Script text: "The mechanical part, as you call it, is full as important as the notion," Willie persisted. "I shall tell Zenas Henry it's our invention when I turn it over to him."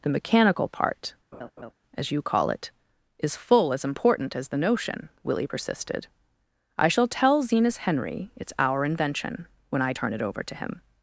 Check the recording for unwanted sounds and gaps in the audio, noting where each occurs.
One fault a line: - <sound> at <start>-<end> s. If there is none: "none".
- laugh at 1.3-1.7 s